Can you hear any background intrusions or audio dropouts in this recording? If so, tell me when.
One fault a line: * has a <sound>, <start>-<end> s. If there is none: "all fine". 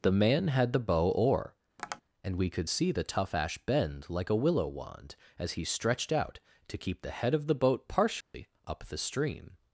* has a tap, 1.8-2.0 s
* has a dropout, 8.2-8.3 s